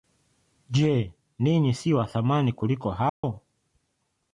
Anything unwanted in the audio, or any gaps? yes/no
yes